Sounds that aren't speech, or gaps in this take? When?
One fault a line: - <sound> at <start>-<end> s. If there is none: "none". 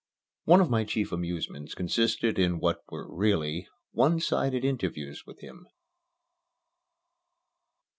none